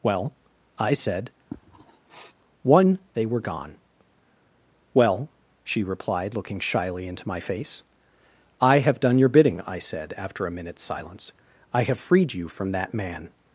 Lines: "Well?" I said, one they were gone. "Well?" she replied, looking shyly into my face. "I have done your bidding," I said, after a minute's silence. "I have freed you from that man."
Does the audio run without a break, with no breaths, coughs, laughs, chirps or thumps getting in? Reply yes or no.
no